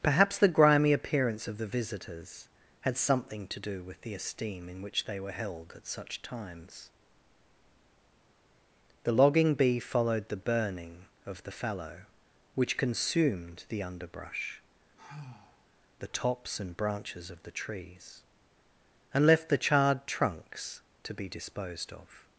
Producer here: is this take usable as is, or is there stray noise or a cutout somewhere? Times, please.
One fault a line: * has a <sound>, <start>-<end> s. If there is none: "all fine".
* has a sigh, 15.0-15.7 s